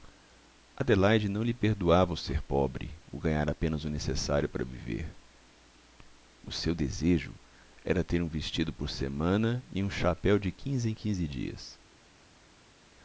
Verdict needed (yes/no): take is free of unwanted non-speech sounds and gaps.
yes